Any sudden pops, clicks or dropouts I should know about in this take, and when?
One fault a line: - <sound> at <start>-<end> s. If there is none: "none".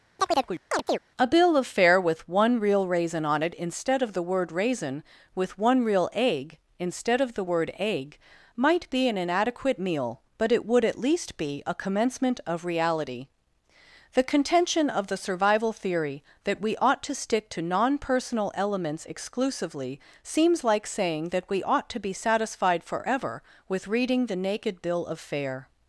- chirp at 0.2-1.0 s